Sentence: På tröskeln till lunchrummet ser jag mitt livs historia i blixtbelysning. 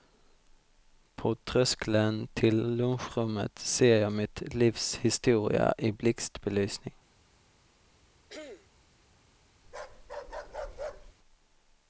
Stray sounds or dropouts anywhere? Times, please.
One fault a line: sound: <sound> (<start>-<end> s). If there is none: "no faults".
sound: throat clearing (8.3-8.7 s)
sound: bark (9.6-11.1 s)